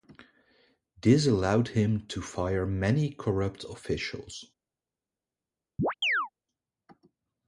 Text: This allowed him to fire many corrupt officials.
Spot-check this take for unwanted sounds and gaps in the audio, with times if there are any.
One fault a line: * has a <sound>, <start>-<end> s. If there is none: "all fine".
* has a chirp, 5.8-6.3 s